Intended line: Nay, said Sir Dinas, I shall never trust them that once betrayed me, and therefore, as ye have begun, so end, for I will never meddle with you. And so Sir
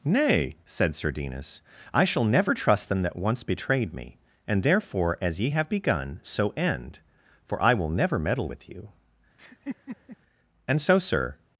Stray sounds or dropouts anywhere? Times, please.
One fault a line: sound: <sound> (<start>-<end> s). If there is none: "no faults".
sound: laugh (9.4-10.2 s)